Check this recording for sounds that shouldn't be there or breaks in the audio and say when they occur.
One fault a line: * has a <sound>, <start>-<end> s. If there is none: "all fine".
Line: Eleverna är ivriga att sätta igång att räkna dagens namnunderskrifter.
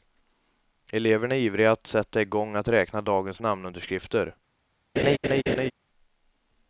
* has a laugh, 5.0-5.7 s